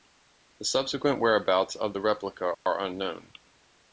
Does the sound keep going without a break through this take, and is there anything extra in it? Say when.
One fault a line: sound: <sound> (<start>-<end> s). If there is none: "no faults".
sound: dropout (2.5-2.7 s)